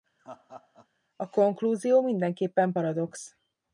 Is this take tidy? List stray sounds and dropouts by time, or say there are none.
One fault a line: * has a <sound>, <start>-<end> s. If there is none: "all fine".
* has a laugh, 0.2-0.9 s